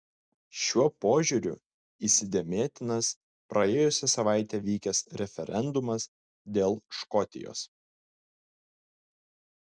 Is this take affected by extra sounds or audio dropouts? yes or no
no